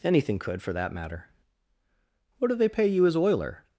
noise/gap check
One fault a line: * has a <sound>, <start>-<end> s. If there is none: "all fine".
all fine